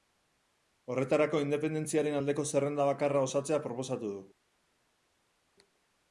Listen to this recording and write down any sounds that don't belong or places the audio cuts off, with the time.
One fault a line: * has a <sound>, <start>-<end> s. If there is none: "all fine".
all fine